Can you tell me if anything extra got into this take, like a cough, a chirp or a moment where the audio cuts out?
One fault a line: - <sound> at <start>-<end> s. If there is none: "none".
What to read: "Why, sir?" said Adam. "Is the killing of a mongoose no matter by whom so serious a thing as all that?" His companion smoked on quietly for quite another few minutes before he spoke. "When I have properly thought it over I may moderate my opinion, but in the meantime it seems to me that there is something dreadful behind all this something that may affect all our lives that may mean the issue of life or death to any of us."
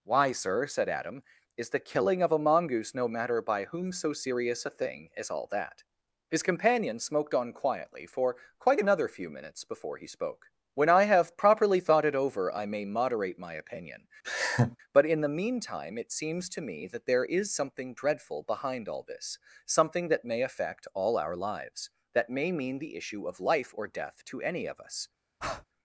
- laugh at 14.2-14.8 s
- breath at 25.4-25.6 s